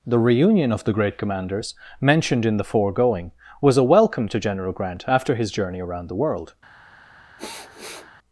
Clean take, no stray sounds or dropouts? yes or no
no